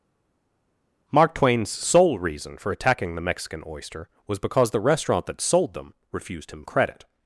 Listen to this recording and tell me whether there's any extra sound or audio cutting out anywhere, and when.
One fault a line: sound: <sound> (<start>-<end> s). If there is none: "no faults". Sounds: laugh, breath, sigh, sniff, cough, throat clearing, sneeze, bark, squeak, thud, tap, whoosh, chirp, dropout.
no faults